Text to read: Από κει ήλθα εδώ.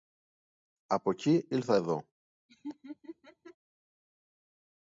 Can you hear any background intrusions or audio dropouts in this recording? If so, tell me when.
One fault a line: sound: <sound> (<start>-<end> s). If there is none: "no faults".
sound: laugh (2.5-3.6 s)